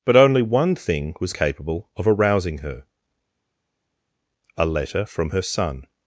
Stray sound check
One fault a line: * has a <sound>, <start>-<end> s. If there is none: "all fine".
all fine